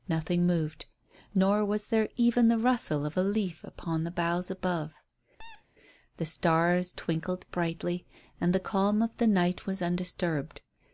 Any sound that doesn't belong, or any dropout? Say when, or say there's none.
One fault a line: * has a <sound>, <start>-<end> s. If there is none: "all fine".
* has a squeak, 5.4-5.7 s